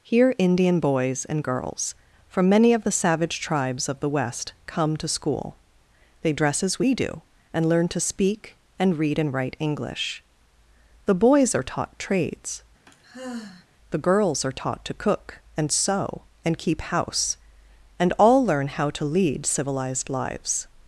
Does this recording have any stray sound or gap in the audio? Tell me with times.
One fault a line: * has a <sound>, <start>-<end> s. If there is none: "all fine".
* has a sigh, 12.9-13.7 s